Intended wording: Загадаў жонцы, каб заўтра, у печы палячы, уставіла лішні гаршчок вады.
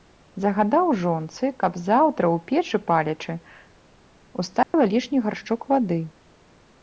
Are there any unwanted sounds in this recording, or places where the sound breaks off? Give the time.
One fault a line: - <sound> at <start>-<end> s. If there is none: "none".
- dropout at 4.6-4.7 s